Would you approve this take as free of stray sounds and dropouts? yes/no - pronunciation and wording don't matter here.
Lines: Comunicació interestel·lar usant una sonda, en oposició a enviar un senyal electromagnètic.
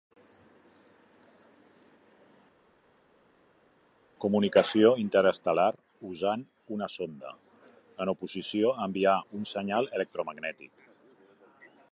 yes